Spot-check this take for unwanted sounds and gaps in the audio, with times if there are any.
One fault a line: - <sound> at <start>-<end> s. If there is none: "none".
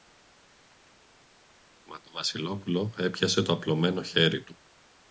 none